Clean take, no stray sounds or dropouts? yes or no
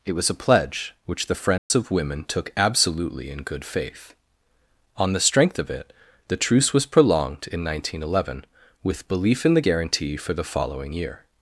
no